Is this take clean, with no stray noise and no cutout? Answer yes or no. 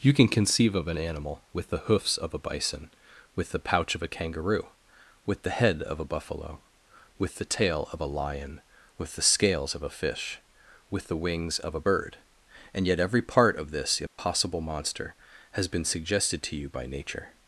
no